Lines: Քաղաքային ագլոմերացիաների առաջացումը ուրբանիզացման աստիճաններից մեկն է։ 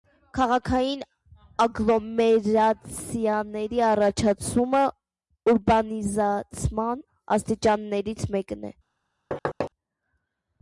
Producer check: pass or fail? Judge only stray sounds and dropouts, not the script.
fail